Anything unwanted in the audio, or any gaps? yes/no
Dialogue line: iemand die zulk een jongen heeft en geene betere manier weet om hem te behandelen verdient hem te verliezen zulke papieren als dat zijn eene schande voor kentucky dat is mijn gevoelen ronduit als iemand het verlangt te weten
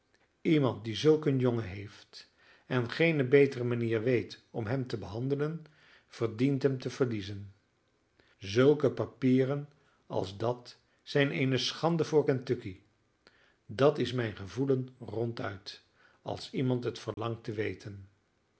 yes